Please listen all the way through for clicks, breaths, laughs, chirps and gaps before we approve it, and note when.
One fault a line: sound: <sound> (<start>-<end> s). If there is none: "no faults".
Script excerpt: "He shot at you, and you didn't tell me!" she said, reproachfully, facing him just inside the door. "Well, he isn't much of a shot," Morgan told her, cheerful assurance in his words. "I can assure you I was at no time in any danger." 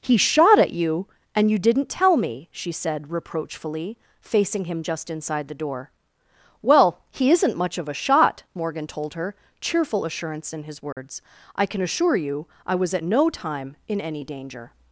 sound: dropout (10.9-11.0 s)